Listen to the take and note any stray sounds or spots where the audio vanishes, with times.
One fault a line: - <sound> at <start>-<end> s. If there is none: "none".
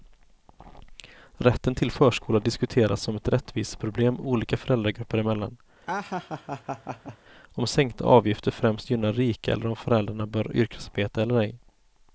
- laugh at 5.9-7.2 s